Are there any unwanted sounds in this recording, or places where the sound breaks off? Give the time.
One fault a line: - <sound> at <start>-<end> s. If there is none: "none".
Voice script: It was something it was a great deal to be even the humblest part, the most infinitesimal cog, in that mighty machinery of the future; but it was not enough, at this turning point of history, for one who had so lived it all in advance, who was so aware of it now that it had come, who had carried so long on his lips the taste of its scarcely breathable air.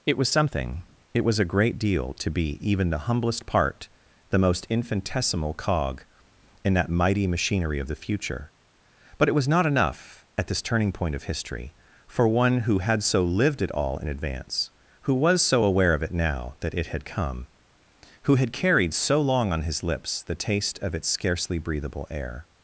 none